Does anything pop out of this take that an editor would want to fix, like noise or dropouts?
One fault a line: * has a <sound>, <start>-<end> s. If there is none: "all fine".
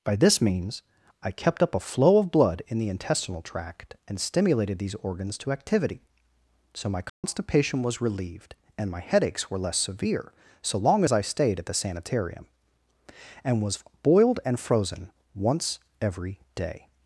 * has a dropout, 7.1-7.2 s